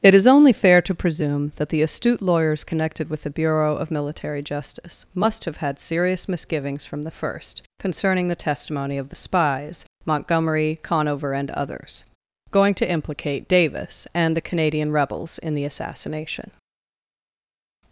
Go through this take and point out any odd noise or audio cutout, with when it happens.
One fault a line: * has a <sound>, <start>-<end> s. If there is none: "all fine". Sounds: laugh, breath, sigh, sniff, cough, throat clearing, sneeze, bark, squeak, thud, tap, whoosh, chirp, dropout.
all fine